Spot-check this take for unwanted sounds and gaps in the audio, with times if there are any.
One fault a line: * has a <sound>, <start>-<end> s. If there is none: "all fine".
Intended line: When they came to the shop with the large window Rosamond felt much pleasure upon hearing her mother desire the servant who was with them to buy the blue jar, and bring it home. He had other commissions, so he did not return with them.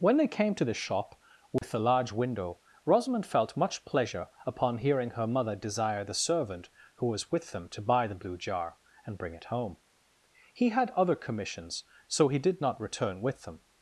* has a dropout, 1.6-1.6 s